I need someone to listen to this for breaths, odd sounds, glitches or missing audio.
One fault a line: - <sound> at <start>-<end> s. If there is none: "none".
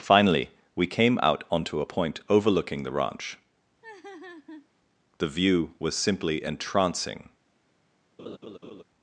- laugh at 3.8-4.7 s
- laugh at 8.2-8.8 s